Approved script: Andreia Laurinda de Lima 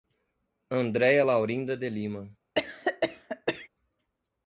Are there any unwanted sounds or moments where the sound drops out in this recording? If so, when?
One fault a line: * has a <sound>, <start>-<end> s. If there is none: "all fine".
* has a cough, 2.6-3.7 s